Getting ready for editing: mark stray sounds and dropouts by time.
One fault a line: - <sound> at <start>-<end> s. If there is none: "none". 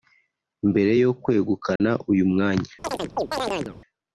- dropout at 1.8-1.8 s
- chirp at 2.8-3.8 s